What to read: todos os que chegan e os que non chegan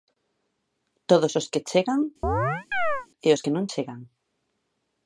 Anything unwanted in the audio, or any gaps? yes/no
yes